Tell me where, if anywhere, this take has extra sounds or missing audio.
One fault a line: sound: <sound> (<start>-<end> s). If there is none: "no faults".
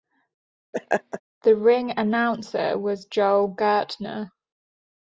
sound: laugh (0.7-1.2 s)